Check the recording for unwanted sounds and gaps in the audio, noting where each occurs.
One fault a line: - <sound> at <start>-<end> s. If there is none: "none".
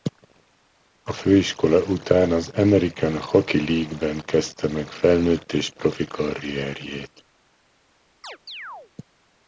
- chirp at 8.2-8.9 s